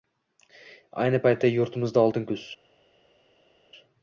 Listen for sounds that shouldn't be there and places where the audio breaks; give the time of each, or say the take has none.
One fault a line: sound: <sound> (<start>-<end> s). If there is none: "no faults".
no faults